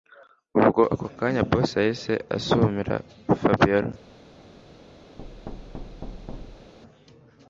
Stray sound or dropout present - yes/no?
yes